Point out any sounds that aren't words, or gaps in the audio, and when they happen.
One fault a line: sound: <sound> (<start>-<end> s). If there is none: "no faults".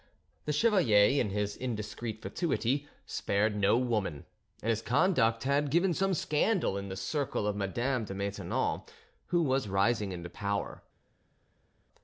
no faults